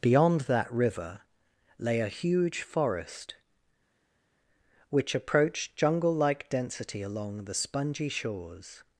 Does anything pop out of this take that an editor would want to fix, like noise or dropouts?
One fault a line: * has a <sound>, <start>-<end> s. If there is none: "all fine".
all fine